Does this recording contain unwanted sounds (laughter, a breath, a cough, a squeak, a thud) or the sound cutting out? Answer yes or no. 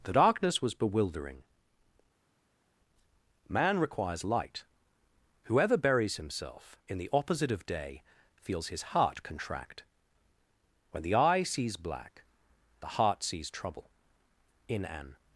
no